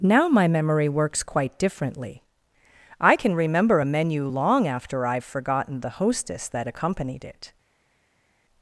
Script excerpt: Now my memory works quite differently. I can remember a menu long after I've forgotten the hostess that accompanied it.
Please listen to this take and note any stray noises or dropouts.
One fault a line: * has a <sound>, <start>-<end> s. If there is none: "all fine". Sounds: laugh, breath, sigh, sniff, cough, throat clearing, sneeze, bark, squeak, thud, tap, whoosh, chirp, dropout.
all fine